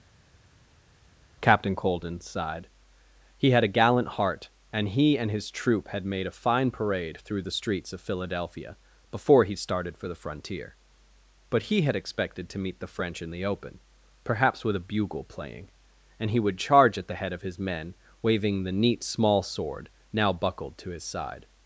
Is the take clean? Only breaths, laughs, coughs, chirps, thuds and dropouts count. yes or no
yes